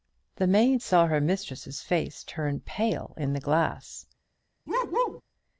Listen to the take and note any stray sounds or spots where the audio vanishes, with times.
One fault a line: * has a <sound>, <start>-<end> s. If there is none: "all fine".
* has a bark, 4.7-5.2 s